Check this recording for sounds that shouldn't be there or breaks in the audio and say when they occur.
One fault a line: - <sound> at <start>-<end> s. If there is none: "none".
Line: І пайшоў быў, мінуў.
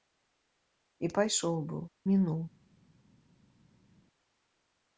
none